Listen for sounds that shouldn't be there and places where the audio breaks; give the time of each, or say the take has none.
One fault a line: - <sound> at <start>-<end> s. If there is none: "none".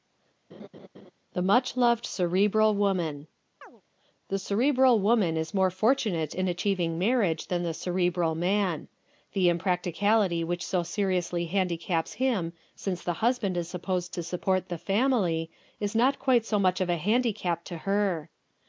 - laugh at 0.5-1.1 s
- chirp at 3.6-3.8 s